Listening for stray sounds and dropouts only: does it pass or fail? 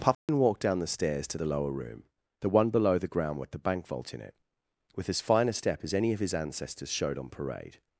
fail